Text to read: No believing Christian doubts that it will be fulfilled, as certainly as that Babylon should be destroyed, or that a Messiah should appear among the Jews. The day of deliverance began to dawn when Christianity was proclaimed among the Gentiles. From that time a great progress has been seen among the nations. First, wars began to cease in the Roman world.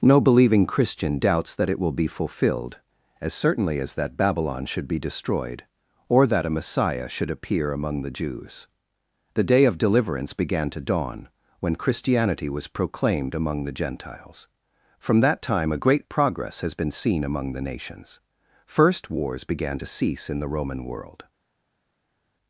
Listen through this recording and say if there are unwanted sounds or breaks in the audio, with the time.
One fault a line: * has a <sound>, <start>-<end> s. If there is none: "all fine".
all fine